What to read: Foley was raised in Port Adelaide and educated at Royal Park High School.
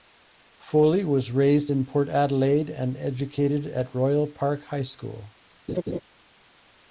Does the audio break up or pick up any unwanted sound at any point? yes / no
yes